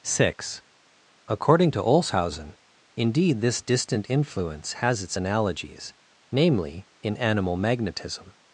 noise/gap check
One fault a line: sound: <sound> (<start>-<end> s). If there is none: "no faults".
no faults